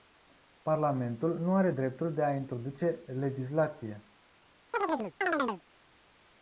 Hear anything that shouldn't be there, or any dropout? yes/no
yes